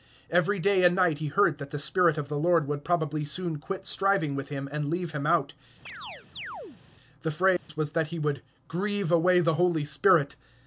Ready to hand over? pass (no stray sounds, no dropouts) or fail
fail